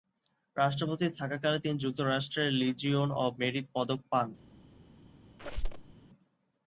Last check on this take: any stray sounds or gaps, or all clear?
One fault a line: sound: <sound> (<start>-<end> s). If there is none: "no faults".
sound: squeak (5.4-5.9 s)